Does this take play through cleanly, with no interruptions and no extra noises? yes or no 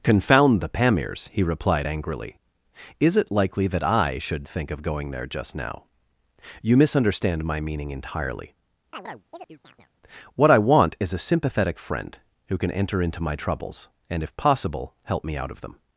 no